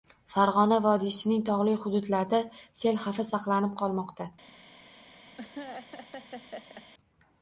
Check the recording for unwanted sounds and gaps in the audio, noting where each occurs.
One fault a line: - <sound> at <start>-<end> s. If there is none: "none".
- laugh at 5.4-6.9 s